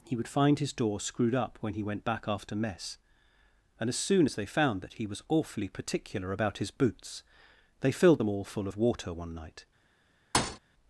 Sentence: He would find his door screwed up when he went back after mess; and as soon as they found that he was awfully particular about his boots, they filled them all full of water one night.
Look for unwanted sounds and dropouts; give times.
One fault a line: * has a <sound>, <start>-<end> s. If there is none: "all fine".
* has a thud, 10.3-10.6 s